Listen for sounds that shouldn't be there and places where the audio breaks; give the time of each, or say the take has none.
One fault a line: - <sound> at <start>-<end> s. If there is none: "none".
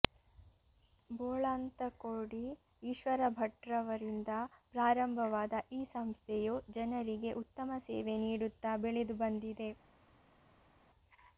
none